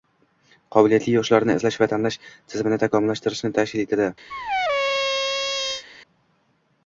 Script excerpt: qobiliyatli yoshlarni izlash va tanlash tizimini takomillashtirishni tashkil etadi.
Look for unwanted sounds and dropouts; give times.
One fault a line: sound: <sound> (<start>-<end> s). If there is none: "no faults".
sound: squeak (4.3-5.8 s)